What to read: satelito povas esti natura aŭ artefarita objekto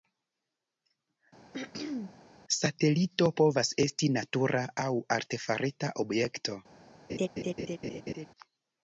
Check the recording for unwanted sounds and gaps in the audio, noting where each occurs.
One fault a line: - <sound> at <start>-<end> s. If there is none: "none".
- throat clearing at 1.5-2.2 s
- laugh at 7.1-8.3 s